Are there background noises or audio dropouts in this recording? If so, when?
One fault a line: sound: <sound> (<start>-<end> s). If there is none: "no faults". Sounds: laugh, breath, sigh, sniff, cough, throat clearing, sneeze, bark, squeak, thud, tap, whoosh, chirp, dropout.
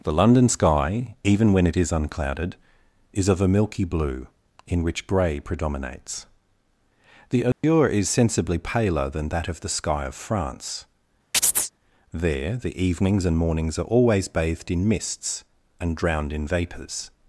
sound: dropout (7.5-7.6 s)
sound: chirp (11.3-11.7 s)